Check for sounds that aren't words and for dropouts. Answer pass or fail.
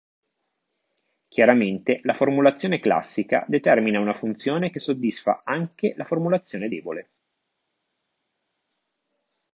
pass